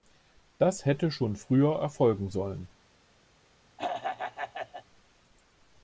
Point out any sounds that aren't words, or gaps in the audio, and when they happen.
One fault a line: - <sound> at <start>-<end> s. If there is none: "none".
- throat clearing at 3.8-4.8 s